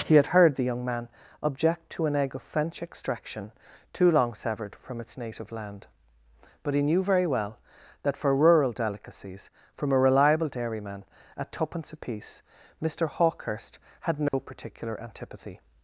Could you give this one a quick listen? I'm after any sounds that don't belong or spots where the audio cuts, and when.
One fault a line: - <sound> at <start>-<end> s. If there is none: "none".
- dropout at 14.3-14.3 s